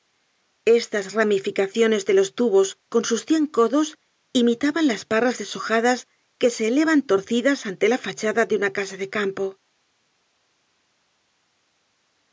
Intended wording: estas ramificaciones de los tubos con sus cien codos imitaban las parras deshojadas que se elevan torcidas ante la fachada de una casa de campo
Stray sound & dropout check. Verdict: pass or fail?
pass